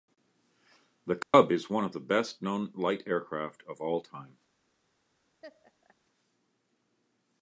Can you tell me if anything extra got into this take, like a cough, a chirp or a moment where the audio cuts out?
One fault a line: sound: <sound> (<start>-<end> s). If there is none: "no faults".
sound: dropout (1.2-1.3 s)
sound: laugh (5.4-6.0 s)